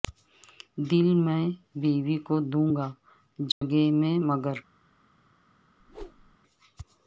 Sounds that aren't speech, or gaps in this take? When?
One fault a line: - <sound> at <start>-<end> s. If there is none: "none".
- dropout at 3.5-3.6 s
- whoosh at 5.8-6.4 s